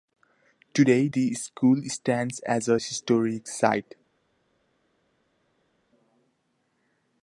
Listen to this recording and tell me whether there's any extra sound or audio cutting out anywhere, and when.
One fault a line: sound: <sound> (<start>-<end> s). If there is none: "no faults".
no faults